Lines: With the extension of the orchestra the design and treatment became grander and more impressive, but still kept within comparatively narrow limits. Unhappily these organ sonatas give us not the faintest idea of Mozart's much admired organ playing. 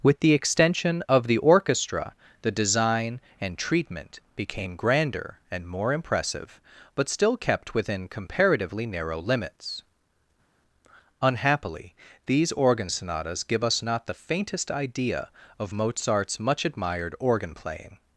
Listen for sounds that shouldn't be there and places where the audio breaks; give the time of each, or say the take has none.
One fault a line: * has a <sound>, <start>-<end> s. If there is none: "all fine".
all fine